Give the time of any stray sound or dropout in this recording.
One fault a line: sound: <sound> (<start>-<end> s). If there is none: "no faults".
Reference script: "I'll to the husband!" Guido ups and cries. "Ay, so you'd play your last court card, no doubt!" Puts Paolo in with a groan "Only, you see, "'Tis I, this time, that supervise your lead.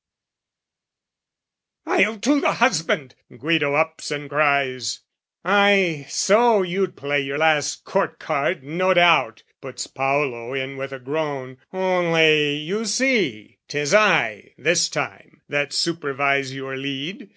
no faults